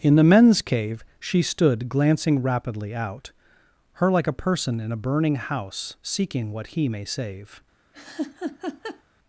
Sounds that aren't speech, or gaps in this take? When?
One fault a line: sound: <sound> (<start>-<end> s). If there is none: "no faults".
sound: laugh (7.9-9.0 s)